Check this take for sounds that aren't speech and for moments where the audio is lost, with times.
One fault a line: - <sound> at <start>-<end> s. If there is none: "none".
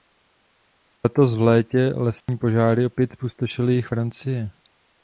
- dropout at 2.2-2.3 s